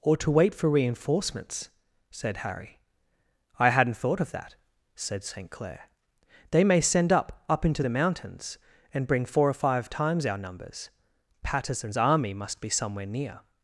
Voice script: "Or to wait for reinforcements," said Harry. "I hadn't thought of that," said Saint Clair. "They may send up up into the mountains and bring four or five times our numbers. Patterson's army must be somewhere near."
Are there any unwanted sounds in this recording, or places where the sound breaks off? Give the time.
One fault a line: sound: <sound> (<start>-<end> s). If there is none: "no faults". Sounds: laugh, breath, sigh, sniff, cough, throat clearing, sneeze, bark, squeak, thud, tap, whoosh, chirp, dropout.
no faults